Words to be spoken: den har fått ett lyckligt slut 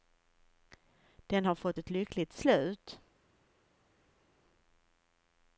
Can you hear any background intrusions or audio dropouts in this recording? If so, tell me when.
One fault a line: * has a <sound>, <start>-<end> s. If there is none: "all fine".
all fine